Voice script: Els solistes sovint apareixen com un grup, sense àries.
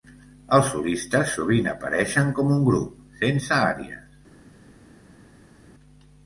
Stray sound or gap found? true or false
false